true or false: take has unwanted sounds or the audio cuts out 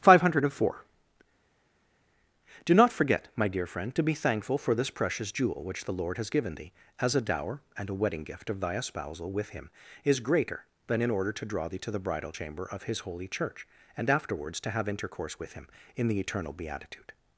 false